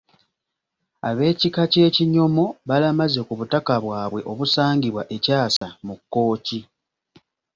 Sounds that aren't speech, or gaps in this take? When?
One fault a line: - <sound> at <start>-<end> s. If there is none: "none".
- dropout at 5.6-5.6 s